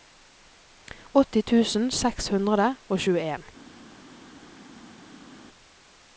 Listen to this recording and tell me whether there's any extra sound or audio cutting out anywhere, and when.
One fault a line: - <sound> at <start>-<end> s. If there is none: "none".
none